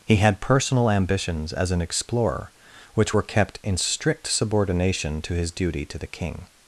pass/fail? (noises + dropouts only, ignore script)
pass